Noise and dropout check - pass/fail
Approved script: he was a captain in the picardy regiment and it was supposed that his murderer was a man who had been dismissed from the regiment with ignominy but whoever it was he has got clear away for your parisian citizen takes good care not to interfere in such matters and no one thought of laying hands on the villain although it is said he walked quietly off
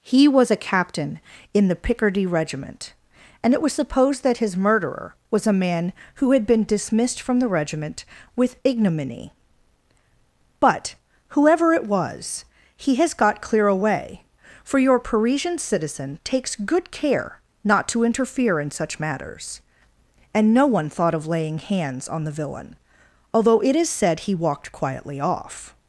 pass